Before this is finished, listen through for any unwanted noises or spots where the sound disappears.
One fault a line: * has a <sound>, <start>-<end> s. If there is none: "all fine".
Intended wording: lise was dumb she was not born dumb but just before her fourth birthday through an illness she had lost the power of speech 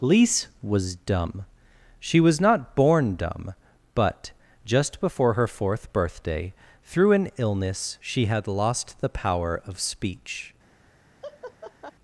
* has a laugh, 11.2-11.9 s